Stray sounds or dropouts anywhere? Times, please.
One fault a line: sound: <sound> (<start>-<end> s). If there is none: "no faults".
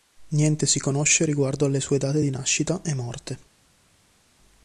no faults